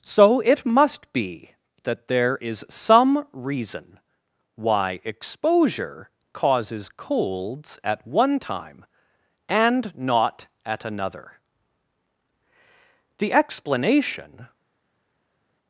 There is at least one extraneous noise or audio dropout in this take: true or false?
false